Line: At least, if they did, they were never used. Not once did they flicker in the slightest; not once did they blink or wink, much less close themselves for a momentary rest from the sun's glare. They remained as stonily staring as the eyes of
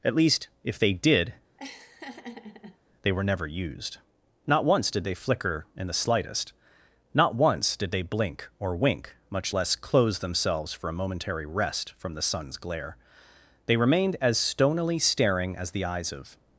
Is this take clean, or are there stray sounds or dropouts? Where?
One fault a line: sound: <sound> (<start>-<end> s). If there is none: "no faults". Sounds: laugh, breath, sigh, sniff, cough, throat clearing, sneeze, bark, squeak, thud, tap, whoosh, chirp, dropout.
sound: laugh (1.6-2.8 s)